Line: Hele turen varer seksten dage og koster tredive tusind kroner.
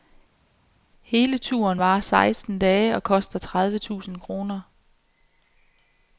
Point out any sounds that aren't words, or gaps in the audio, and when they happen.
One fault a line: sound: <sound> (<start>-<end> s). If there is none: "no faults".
no faults